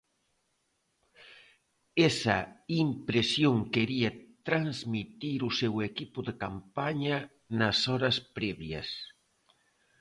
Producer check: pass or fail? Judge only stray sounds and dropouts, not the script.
pass